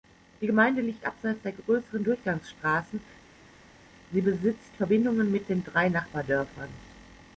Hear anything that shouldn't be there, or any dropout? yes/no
no